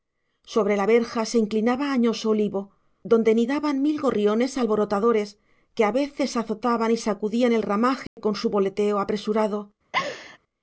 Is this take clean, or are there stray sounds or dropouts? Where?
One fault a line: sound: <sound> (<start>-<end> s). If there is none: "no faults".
sound: dropout (8.1-8.2 s)
sound: laugh (9.9-10.4 s)